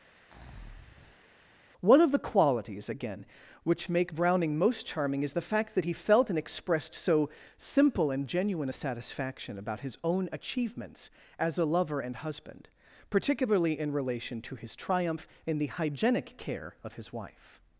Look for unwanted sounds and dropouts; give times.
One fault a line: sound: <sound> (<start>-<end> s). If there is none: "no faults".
sound: breath (0.1-1.4 s)